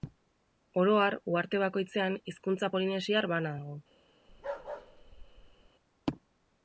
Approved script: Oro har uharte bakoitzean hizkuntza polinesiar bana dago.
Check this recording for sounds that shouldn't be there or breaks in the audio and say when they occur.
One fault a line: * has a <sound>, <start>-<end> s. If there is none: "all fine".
* has a bark, 4.3-5.7 s